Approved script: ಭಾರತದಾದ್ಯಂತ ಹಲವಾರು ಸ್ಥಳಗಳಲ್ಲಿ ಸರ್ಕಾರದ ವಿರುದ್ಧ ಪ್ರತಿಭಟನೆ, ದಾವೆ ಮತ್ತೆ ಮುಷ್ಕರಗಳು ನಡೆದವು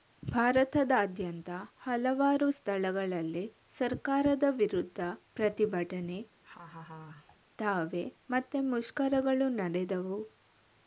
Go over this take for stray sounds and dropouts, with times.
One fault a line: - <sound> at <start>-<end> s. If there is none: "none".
- laugh at 6.4-7.4 s